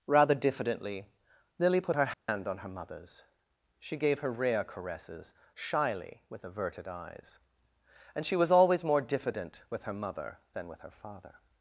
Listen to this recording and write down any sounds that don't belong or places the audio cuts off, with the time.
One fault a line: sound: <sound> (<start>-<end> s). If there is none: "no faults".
sound: dropout (2.1-2.3 s)